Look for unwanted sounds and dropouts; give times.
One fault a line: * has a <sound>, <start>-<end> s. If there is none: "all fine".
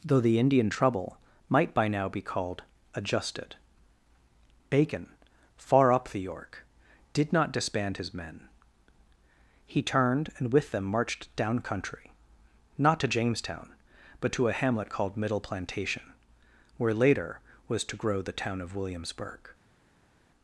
all fine